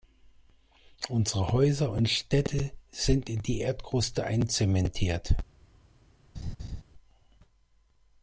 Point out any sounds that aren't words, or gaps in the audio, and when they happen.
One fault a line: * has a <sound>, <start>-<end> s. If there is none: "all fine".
* has a laugh, 6.3-6.8 s